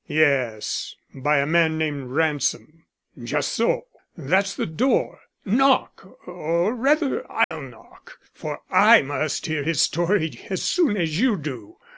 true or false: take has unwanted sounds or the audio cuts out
true